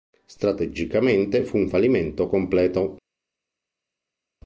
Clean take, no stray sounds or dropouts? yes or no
yes